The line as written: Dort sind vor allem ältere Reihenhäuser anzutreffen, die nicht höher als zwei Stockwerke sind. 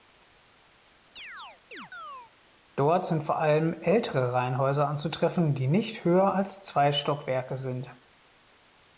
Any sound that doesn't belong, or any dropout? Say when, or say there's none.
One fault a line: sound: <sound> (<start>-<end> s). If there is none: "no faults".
sound: chirp (1.2-2.3 s)